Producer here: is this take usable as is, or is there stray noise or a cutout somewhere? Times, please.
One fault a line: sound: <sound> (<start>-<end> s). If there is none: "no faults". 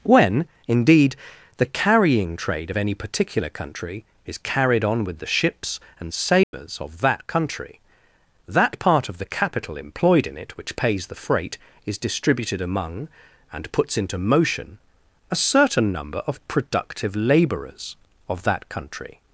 sound: dropout (6.4-6.5 s)